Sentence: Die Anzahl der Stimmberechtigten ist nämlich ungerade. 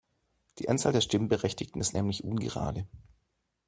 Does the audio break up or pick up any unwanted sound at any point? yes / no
no